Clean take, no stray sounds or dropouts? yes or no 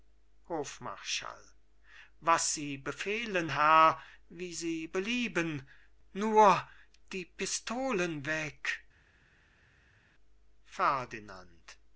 yes